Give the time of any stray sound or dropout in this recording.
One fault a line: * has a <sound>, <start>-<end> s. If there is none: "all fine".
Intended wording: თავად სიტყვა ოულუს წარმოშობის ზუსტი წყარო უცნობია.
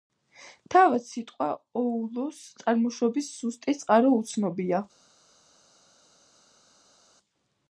all fine